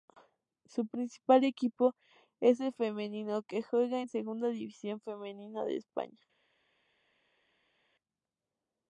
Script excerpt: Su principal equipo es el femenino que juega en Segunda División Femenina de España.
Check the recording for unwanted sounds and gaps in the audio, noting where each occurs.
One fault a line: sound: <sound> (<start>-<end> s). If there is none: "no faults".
no faults